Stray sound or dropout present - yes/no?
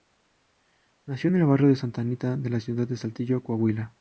no